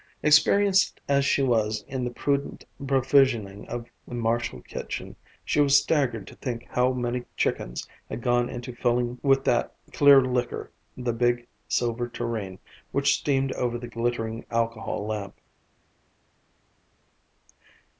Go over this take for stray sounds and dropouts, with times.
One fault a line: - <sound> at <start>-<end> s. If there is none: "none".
none